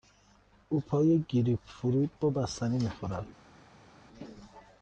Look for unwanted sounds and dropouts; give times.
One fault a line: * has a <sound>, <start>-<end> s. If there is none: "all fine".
all fine